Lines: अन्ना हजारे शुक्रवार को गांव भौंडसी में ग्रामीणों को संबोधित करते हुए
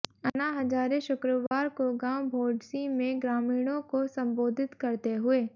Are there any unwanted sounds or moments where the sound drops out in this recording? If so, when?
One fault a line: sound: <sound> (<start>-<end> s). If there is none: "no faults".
sound: dropout (1.5-1.5 s)